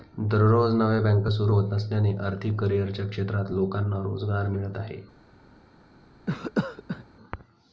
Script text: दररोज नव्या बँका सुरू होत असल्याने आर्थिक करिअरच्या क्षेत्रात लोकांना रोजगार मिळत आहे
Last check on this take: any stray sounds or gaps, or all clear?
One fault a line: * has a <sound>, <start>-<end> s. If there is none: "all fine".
* has a cough, 6.3-7.0 s